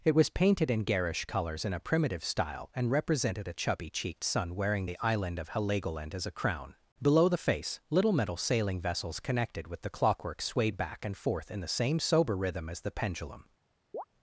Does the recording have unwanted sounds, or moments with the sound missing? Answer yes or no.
yes